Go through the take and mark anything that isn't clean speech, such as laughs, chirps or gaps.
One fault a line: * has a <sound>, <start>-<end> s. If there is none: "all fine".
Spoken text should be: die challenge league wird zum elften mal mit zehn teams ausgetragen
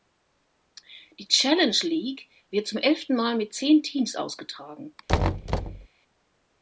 * has a thud, 5.1-5.9 s